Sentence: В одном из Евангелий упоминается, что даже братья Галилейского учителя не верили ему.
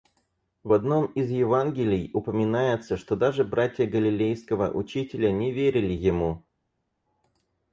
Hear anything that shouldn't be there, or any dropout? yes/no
no